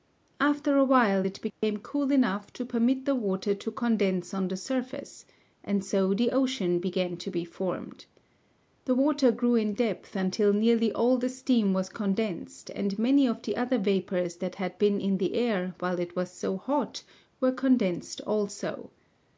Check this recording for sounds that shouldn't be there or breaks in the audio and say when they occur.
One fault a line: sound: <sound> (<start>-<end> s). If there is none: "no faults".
sound: dropout (1.5-1.6 s)